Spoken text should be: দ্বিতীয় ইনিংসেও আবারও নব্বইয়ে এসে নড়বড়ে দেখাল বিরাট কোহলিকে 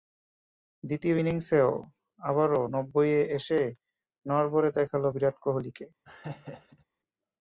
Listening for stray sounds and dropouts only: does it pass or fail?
fail